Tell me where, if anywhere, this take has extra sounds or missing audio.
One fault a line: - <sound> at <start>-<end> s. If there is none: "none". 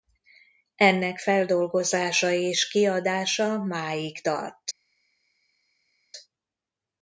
none